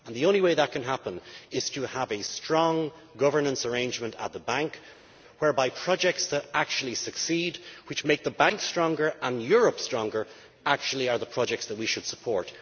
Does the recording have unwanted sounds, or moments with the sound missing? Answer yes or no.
no